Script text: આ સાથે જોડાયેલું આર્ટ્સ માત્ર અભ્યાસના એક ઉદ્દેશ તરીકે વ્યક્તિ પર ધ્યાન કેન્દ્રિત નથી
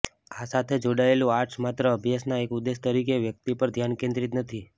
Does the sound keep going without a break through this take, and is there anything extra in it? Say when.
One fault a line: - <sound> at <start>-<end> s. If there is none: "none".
none